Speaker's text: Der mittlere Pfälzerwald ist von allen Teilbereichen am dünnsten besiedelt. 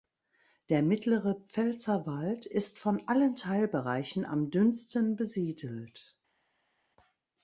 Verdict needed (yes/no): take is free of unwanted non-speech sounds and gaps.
yes